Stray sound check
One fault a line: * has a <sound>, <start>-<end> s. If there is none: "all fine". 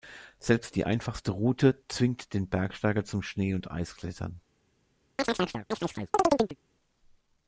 * has a chirp, 5.2-6.6 s